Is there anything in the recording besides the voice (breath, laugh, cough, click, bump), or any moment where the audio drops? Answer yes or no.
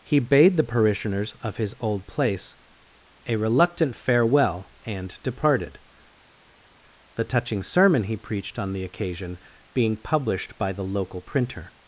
no